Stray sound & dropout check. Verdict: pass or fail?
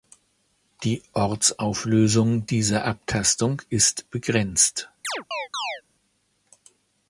fail